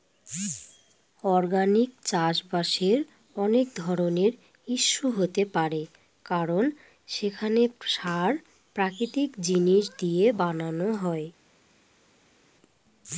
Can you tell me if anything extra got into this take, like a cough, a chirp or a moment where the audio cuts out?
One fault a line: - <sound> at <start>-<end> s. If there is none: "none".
none